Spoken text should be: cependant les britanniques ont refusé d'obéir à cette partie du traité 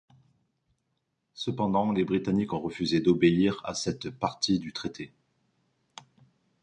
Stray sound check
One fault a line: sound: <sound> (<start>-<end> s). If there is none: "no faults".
no faults